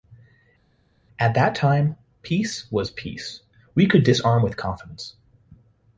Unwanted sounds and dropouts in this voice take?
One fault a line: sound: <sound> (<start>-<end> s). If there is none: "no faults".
no faults